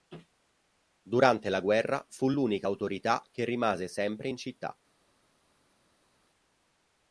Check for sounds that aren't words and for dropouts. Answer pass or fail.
pass